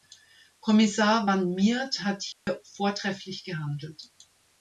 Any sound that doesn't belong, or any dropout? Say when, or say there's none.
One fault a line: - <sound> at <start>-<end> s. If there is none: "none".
- dropout at 2.3-2.5 s